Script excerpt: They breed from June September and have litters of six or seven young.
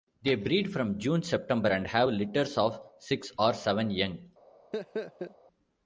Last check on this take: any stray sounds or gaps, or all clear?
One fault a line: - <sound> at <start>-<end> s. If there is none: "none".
- laugh at 4.7-5.4 s